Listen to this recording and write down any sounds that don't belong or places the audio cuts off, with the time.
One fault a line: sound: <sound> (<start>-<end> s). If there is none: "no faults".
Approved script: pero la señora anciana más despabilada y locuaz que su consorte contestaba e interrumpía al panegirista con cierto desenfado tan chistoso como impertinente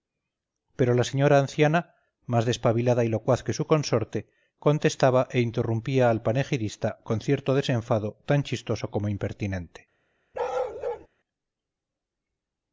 sound: bark (10.3-11.1 s)